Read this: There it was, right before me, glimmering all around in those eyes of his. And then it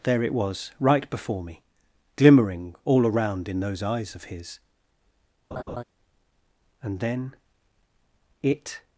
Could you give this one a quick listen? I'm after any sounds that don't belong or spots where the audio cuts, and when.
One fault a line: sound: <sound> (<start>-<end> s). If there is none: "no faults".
sound: laugh (5.5-5.8 s)